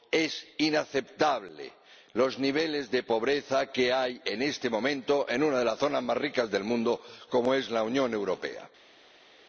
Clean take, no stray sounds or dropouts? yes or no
yes